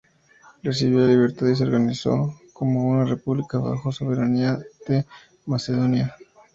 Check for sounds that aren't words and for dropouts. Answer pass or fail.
pass